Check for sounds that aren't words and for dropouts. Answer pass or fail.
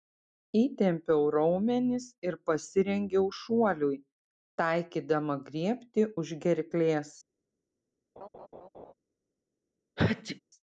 fail